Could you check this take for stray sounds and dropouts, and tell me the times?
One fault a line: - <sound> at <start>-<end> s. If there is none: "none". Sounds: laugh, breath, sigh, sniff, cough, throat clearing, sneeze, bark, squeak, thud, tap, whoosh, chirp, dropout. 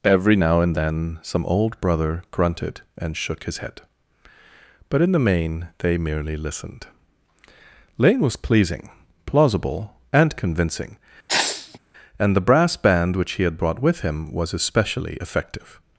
- sneeze at 11.3-11.8 s